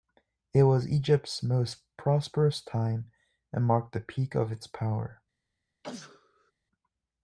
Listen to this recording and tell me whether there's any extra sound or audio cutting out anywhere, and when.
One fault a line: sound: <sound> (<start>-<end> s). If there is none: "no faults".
sound: sneeze (5.8-6.5 s)